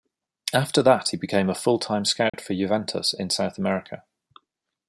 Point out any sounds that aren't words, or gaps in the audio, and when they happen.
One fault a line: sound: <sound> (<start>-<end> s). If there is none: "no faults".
sound: dropout (2.3-2.3 s)